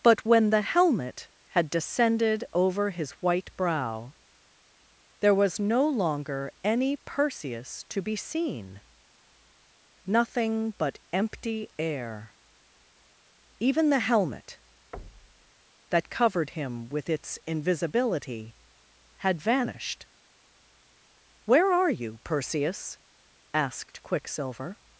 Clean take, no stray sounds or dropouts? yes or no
no